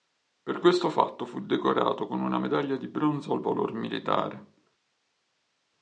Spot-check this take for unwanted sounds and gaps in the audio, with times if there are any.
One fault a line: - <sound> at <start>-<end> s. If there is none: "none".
none